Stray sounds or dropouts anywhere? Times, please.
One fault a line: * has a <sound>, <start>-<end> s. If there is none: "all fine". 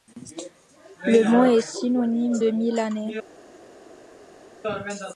all fine